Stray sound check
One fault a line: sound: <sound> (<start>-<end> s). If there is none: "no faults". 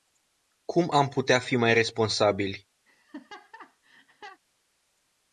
sound: laugh (2.9-4.4 s)